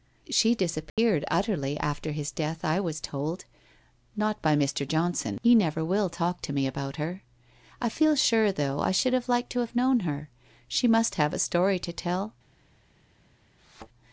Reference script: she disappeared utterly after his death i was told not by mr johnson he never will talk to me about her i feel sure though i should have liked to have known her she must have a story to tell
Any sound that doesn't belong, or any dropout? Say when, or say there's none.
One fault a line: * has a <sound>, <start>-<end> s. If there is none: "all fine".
* has a dropout, 0.9-1.0 s
* has a thud, 13.6-13.9 s